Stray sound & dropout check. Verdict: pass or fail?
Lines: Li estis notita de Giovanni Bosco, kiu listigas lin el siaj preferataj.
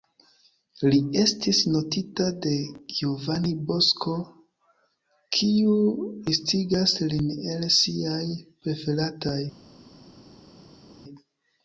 pass